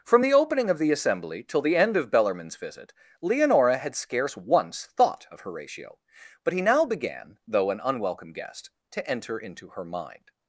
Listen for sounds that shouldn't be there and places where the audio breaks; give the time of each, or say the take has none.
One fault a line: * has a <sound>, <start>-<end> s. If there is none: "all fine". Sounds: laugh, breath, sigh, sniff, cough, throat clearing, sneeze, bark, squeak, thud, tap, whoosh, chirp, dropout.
all fine